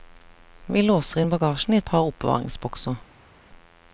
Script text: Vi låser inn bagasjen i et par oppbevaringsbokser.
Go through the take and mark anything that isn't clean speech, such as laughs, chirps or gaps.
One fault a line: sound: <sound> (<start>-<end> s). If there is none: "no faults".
no faults